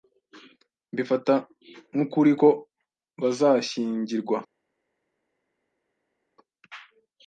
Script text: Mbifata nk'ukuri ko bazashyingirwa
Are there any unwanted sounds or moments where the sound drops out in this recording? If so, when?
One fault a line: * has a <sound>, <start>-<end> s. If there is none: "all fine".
all fine